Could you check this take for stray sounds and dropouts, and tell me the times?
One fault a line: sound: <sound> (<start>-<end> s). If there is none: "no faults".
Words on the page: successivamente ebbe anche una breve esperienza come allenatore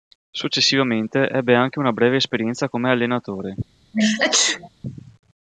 sound: sneeze (3.9-4.7 s)